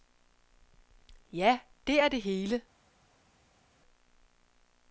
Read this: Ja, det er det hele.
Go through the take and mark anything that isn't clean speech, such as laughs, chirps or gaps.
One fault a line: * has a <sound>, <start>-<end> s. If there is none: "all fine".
all fine